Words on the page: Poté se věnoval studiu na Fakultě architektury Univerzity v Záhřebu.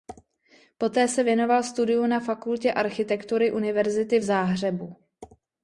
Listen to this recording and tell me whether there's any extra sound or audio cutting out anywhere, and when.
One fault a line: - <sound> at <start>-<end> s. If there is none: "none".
none